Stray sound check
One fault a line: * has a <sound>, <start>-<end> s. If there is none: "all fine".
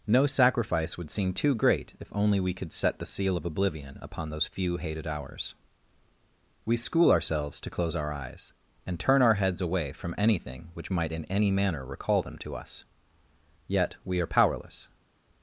all fine